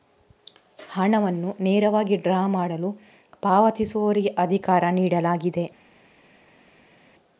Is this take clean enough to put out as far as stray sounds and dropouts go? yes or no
yes